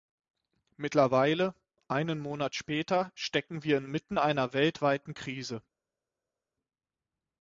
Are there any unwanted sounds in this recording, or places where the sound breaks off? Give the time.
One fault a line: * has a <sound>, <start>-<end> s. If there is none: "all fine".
all fine